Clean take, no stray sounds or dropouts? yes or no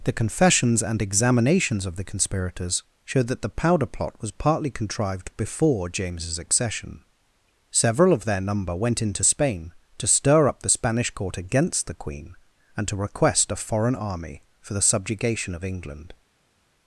yes